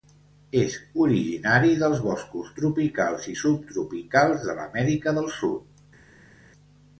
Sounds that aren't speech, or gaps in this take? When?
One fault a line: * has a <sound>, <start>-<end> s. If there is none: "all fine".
all fine